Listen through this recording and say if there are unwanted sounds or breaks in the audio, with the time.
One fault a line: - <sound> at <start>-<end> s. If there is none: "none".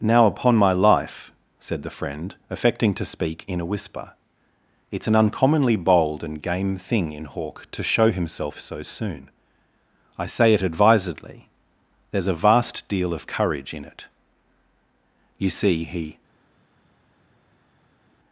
none